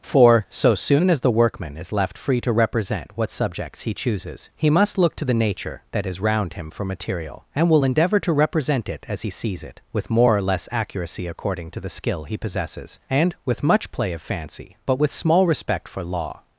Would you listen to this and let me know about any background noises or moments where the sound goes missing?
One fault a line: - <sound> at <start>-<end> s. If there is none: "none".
none